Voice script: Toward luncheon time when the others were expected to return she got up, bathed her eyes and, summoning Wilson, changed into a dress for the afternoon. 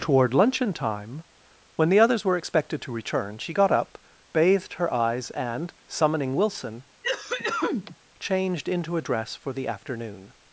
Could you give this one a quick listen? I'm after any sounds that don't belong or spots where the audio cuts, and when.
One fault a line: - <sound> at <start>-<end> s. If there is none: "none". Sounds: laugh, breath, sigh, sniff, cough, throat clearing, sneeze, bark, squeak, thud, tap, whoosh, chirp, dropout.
- cough at 7.0-8.0 s